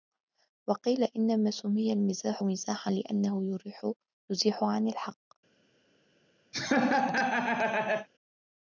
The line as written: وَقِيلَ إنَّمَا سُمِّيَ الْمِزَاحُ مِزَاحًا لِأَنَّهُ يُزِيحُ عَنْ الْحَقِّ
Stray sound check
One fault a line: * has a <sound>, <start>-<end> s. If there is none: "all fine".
* has a laugh, 6.5-8.1 s